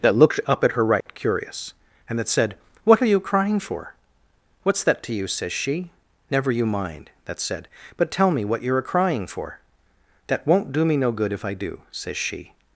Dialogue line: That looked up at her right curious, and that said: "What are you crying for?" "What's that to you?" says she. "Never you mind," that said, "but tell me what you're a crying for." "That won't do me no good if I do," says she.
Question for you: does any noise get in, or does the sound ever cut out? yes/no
yes